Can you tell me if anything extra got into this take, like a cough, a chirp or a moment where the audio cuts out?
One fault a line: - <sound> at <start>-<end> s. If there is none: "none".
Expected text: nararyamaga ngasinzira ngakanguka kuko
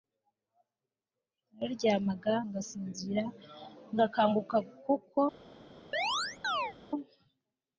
- chirp at 5.9-6.7 s